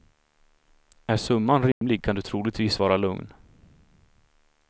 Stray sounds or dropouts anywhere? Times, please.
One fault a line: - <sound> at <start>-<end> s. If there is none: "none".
- dropout at 1.7-1.8 s